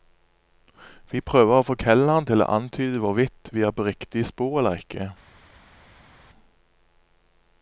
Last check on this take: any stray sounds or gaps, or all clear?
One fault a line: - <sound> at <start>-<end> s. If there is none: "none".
none